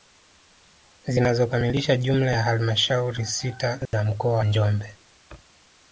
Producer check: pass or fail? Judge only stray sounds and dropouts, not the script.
fail